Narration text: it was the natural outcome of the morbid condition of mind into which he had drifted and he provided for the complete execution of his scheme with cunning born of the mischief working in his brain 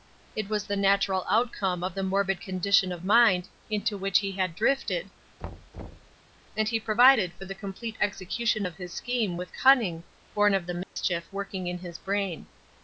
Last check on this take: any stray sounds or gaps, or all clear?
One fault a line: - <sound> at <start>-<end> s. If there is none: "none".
- thud at 5.4-6.2 s
- dropout at 10.8-11.0 s